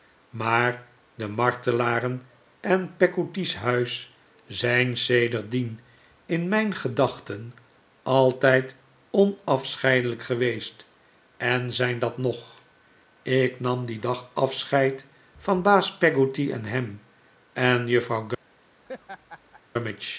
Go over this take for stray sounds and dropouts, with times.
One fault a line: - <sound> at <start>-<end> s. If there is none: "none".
- laugh at 18.9-19.6 s